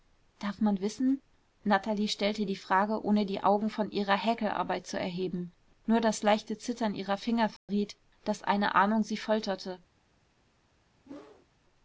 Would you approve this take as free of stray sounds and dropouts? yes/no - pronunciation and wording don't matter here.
no